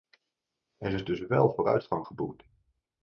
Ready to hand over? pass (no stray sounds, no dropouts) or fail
pass